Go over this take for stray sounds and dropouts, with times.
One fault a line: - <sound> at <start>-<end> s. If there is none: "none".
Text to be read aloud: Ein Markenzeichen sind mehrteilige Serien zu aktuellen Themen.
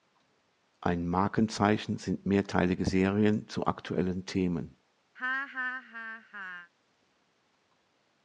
- laugh at 5.1-6.7 s